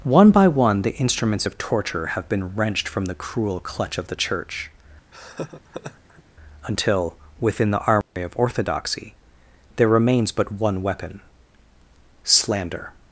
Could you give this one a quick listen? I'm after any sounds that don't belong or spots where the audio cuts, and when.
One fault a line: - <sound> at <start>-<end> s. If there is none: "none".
- laugh at 5.1-6.2 s
- dropout at 8.0-8.2 s